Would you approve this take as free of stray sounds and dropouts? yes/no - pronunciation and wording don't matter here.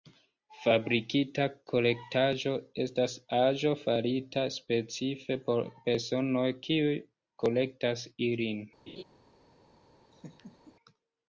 no